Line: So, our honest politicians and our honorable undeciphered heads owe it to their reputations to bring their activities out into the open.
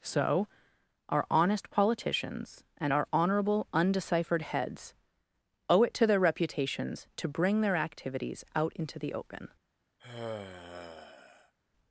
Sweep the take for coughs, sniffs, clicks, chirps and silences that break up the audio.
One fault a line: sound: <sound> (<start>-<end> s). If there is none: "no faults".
sound: sigh (10.0-11.5 s)